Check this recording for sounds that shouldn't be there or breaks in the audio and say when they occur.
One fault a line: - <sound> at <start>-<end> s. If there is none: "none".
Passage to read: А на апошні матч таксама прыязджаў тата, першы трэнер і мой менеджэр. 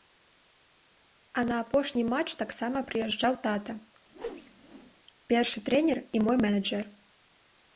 - whoosh at 4.1-4.9 s